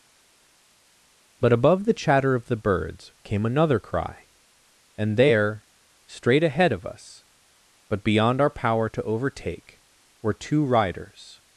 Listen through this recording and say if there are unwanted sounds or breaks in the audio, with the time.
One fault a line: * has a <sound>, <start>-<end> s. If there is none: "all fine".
all fine